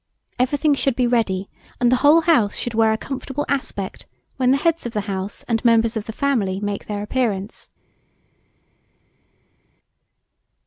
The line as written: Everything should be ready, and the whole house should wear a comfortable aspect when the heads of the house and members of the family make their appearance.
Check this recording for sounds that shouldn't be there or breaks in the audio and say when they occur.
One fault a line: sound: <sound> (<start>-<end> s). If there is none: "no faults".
no faults